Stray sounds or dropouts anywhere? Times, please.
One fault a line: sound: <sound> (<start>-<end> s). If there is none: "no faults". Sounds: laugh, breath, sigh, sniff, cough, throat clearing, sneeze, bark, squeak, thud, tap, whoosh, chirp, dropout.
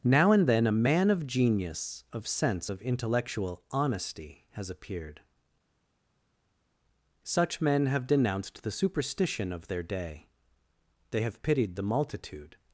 no faults